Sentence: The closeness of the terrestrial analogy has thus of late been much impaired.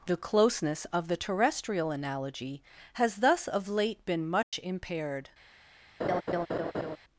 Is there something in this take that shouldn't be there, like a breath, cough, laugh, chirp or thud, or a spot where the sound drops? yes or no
yes